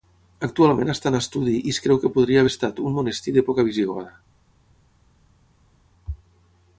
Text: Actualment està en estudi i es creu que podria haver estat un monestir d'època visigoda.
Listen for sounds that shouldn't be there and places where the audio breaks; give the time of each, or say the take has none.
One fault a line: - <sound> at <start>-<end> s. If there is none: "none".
none